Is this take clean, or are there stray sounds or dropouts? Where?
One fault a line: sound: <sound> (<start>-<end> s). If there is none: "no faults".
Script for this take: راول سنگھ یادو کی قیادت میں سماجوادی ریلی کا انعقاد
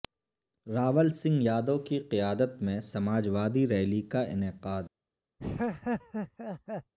sound: laugh (5.4-6.9 s)